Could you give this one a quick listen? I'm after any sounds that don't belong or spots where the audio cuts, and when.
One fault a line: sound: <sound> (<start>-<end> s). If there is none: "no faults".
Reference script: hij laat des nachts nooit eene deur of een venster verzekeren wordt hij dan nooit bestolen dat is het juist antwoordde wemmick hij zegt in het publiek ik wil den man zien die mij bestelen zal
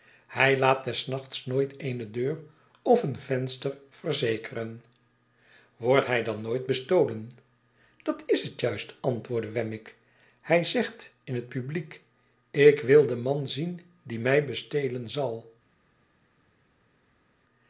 no faults